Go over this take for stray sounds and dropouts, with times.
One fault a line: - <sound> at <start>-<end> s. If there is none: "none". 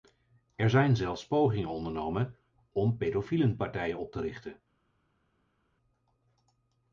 none